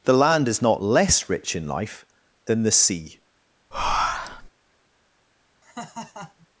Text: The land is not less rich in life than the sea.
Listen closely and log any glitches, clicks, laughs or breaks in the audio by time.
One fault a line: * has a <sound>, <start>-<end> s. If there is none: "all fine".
* has a breath, 3.7-4.5 s
* has a laugh, 5.6-6.5 s